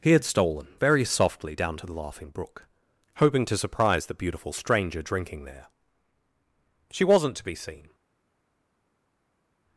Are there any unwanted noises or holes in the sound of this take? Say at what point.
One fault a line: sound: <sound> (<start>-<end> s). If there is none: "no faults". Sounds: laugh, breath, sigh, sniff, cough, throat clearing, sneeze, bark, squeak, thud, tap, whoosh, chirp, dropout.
no faults